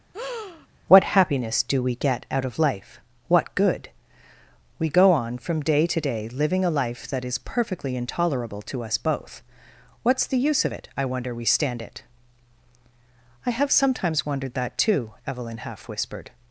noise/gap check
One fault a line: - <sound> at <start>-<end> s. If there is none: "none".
- breath at 0.1-0.7 s